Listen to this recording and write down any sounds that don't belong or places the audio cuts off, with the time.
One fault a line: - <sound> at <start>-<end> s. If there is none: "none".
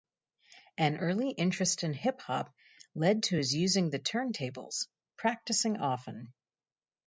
none